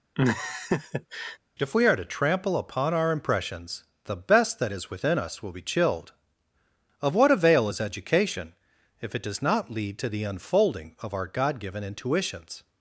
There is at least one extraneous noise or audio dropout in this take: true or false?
true